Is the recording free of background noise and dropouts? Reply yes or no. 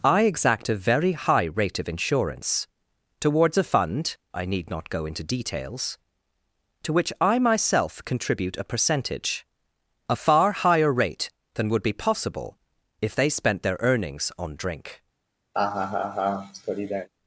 no